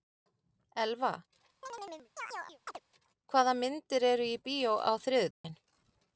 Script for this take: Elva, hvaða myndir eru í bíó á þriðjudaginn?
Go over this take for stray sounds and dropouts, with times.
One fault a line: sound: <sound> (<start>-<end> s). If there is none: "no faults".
sound: chirp (1.6-2.8 s)
sound: dropout (5.3-5.4 s)